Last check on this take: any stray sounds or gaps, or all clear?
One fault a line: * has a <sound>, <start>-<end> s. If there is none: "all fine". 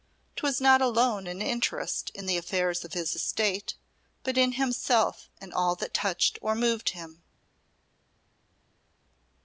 all fine